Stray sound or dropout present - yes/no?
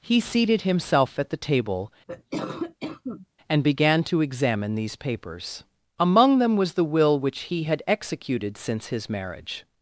yes